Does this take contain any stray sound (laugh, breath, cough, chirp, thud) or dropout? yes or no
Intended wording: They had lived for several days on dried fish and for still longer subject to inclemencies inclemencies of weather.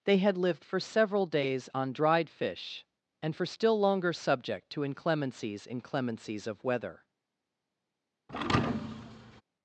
yes